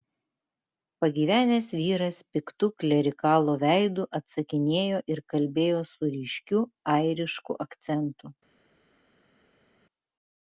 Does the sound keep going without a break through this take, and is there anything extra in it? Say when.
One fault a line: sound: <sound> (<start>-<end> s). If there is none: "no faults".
no faults